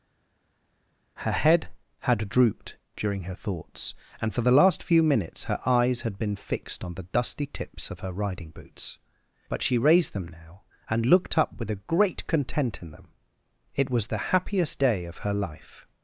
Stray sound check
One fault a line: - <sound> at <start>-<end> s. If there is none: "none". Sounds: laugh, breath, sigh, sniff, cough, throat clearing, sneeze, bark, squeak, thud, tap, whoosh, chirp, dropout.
none